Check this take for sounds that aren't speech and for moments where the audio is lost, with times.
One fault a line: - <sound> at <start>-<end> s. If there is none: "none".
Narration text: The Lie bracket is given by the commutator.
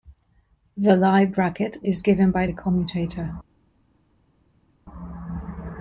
none